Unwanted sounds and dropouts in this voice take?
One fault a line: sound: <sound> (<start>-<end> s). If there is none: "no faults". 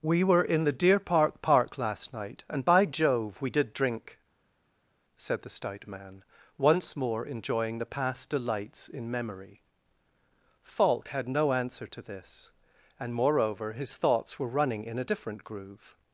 no faults